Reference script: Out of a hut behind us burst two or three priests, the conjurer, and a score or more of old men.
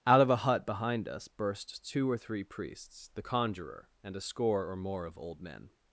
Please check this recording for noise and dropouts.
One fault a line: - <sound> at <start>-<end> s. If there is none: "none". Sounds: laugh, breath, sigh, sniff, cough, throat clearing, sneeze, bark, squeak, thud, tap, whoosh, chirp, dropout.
none